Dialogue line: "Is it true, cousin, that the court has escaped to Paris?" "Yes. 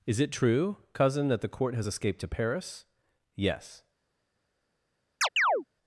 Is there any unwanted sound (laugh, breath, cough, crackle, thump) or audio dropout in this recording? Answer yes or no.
yes